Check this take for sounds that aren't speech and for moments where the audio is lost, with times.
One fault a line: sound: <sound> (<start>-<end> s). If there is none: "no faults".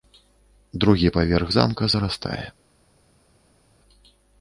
no faults